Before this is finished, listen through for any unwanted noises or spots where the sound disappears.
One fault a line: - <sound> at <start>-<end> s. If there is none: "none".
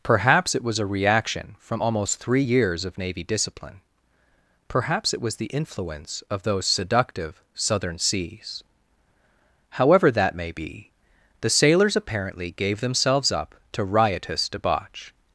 none